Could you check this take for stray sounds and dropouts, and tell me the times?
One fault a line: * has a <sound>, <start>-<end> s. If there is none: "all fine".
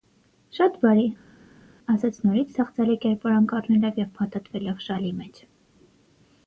all fine